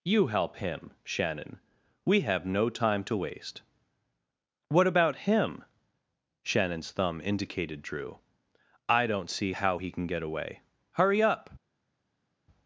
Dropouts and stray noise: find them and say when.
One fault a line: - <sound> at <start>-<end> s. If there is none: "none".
none